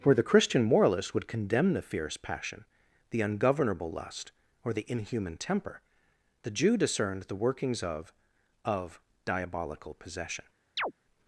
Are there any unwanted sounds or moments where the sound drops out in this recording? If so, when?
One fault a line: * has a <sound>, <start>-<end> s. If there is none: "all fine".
* has a chirp, 10.8-10.9 s